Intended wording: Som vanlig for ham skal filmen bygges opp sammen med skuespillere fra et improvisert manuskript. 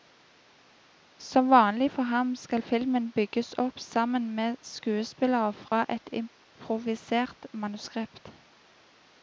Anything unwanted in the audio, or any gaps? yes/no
yes